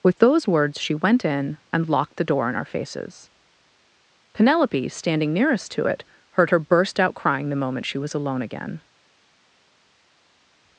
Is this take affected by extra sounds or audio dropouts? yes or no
no